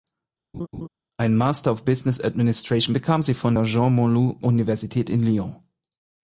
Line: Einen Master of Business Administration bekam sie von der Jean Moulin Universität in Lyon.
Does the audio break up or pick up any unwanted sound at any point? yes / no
yes